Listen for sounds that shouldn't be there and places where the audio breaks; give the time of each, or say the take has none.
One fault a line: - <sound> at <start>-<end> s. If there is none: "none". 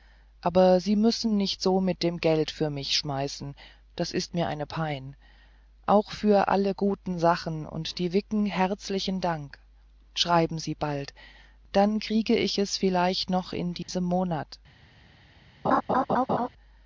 - dropout at 13.8-13.9 s
- laugh at 15.6-16.5 s